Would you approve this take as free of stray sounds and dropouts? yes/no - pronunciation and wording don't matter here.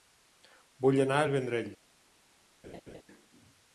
no